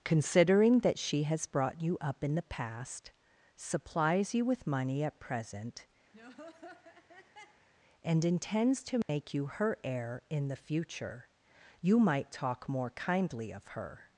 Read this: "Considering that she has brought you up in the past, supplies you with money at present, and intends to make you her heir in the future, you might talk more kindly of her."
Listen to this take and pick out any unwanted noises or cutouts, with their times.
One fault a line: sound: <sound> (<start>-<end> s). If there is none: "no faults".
sound: laugh (6.1-7.7 s)
sound: dropout (9.0-9.1 s)